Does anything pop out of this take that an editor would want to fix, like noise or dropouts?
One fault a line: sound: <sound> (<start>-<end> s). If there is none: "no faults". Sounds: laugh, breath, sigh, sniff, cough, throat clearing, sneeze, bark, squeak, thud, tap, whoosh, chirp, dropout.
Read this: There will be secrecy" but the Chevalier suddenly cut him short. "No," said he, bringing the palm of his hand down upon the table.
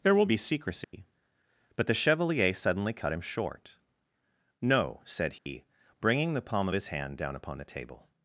sound: dropout (0.8-0.9 s)
sound: dropout (5.4-5.5 s)